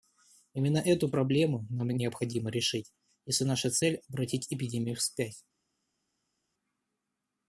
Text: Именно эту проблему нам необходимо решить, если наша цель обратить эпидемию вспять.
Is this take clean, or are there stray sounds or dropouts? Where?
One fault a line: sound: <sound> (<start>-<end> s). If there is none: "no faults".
no faults